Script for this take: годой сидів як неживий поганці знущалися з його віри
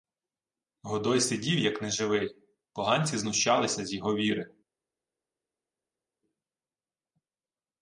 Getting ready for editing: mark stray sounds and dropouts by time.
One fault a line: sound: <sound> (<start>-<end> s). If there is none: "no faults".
no faults